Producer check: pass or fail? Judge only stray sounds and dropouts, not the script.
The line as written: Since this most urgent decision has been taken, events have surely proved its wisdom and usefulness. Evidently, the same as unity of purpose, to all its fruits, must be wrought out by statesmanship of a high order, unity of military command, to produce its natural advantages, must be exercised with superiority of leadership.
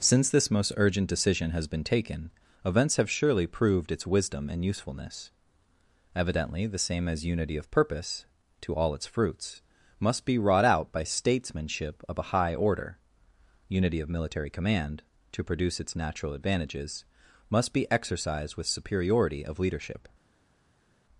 pass